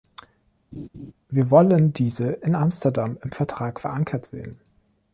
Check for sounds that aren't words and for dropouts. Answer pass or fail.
fail